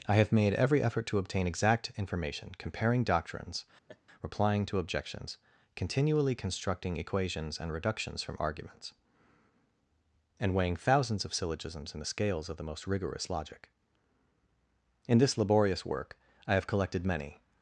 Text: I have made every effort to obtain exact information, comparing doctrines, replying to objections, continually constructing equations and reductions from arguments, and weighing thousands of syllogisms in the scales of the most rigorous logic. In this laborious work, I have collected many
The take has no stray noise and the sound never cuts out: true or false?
false